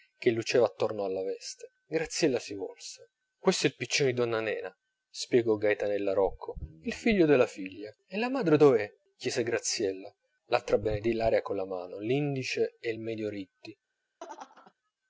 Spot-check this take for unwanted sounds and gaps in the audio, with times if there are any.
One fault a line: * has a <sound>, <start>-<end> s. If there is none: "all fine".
* has a laugh, 14.2-14.7 s